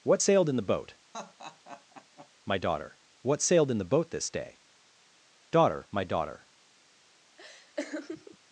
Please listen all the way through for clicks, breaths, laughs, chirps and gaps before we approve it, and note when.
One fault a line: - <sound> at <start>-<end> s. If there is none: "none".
- laugh at 1.1-2.3 s
- laugh at 7.4-8.4 s